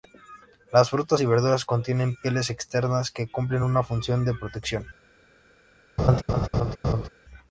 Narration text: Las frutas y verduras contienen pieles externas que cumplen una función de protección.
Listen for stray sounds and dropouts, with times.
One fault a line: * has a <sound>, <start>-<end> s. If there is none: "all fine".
* has a laugh, 6.0-7.1 s